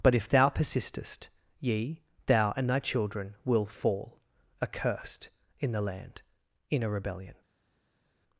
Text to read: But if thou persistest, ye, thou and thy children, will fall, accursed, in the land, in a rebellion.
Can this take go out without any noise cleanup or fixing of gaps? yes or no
yes